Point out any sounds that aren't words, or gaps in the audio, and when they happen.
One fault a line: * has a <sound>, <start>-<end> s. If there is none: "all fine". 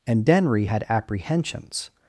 all fine